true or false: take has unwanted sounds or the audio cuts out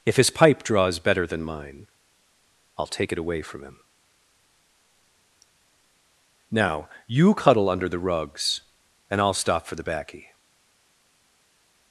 false